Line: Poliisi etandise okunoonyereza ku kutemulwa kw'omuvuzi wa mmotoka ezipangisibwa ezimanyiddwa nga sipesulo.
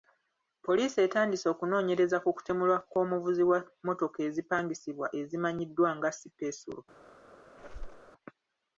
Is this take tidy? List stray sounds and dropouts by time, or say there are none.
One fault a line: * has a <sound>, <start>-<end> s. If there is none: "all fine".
* has a squeak, 7.6-8.1 s